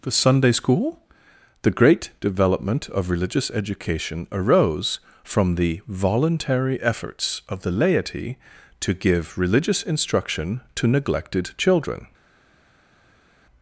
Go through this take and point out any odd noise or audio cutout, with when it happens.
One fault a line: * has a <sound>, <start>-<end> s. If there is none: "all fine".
all fine